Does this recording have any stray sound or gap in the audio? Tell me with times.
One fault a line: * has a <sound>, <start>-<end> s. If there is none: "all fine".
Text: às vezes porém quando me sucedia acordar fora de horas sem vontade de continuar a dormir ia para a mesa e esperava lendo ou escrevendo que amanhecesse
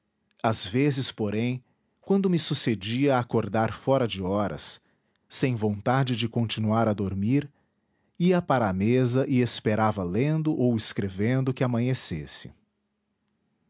all fine